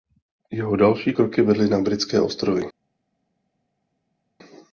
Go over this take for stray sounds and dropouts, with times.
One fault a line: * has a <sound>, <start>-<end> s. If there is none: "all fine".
all fine